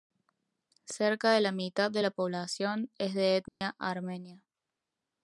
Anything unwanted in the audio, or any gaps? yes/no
yes